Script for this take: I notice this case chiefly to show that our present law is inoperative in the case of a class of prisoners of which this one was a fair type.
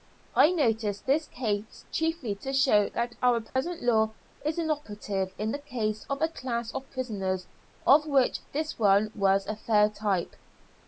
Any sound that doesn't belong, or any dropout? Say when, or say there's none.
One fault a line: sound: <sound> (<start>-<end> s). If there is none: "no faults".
sound: dropout (3.5-3.6 s)